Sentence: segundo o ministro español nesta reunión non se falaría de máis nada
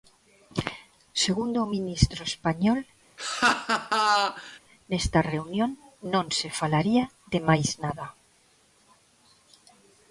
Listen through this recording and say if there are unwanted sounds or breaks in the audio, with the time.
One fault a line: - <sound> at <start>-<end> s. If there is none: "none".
- laugh at 3.2-4.6 s